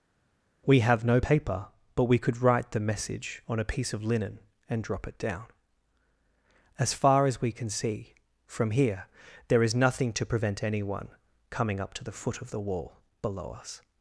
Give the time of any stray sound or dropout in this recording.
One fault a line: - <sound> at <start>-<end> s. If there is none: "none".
none